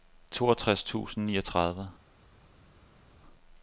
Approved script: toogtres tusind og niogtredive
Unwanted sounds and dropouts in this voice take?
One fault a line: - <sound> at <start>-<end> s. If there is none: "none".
none